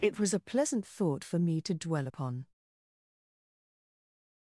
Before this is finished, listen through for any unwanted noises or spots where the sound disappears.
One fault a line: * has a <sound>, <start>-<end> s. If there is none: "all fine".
all fine